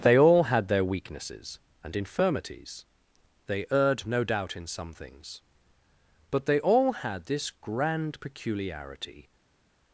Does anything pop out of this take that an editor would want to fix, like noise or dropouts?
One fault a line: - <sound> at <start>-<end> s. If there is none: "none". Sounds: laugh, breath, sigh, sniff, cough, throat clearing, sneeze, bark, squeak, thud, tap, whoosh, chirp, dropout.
none